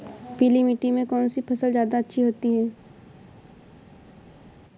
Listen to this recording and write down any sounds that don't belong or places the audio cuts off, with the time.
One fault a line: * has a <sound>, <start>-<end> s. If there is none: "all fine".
all fine